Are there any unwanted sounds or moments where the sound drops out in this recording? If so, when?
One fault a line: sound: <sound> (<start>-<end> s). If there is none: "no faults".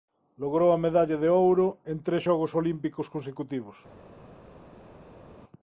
no faults